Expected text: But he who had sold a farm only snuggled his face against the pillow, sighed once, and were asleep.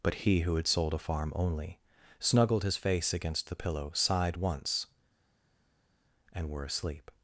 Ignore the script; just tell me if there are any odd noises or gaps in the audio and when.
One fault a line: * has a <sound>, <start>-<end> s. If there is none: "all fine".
all fine